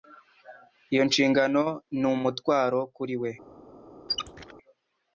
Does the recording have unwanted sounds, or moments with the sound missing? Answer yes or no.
yes